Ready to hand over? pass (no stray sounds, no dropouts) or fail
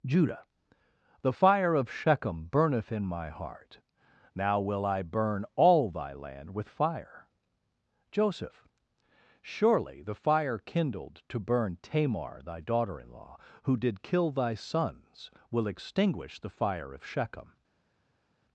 pass